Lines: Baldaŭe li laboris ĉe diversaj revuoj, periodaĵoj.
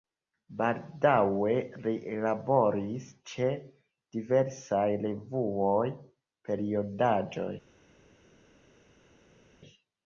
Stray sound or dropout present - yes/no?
no